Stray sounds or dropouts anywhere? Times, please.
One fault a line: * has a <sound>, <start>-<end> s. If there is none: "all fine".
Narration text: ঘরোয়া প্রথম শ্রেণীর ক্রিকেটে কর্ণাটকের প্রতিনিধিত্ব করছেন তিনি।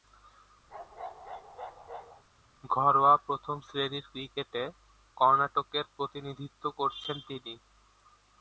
* has a bark, 0.7-2.2 s